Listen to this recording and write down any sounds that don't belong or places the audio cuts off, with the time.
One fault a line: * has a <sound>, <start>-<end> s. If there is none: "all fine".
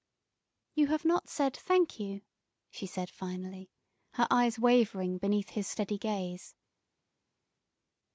all fine